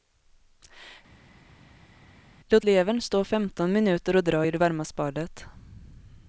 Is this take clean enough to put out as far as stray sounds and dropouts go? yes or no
yes